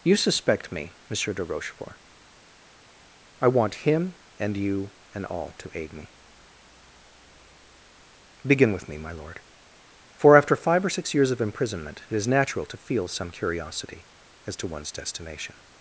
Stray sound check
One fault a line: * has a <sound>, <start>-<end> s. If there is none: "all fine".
all fine